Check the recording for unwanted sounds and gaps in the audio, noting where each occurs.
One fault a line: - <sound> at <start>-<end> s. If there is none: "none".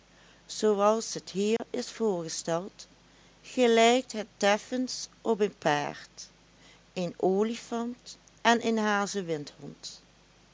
- dropout at 1.6-1.6 s